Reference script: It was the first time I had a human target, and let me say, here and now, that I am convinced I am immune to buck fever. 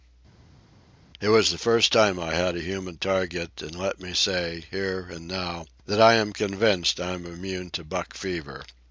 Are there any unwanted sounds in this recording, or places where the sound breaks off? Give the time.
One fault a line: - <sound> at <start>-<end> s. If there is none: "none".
none